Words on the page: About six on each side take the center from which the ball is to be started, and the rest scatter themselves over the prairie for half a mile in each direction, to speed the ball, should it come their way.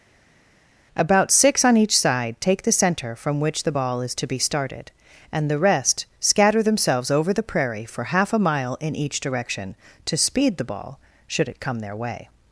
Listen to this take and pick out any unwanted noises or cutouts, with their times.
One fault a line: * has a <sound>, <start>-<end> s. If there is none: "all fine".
all fine